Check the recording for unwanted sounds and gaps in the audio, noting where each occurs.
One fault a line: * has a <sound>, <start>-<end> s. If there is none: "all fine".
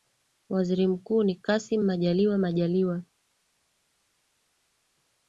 all fine